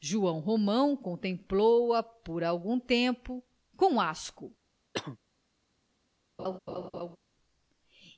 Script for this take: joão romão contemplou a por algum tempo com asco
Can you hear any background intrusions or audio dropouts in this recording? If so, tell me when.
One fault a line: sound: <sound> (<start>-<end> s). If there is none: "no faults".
sound: cough (4.9-5.2 s)
sound: laugh (6.4-7.2 s)